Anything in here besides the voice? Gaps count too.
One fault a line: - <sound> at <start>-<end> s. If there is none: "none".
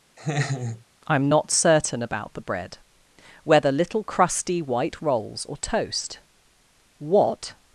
- laugh at 0.2-0.8 s